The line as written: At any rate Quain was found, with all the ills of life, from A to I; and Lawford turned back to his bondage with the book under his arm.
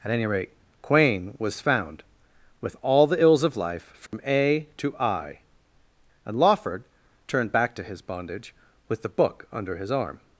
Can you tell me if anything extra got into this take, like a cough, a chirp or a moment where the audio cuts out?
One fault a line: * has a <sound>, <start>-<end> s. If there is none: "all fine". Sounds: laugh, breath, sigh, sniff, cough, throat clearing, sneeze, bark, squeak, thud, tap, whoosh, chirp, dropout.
* has a dropout, 4.1-4.1 s